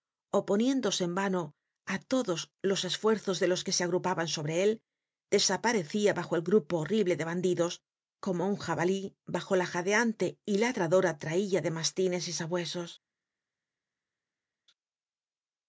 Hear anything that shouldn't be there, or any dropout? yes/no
no